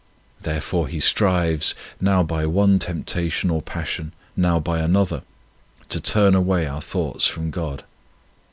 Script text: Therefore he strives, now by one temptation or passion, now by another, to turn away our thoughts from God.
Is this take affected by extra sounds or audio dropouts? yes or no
no